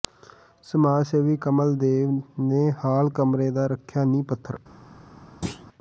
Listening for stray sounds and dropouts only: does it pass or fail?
fail